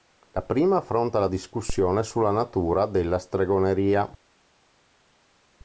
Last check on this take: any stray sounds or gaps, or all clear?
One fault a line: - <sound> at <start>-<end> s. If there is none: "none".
none